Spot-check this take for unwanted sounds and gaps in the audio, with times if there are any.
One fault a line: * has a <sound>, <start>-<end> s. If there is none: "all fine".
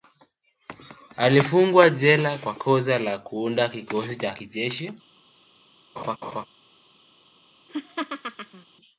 * has a laugh, 6.0-6.5 s
* has a laugh, 7.7-8.6 s